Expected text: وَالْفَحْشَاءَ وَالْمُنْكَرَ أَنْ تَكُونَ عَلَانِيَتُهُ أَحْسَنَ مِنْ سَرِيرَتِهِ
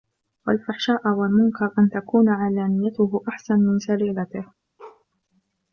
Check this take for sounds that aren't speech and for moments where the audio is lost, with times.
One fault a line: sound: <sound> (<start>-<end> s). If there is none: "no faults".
sound: bark (4.8-5.1 s)